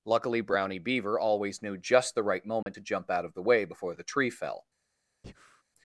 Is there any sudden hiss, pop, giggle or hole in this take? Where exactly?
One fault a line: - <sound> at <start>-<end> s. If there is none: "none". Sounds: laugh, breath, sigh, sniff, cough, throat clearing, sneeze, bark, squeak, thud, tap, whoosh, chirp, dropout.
- dropout at 2.6-2.7 s
- breath at 5.2-5.6 s